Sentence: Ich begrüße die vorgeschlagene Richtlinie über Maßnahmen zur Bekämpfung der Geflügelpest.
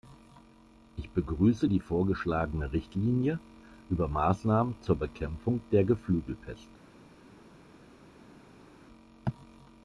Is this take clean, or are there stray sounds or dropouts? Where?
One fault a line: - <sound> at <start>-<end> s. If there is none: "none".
none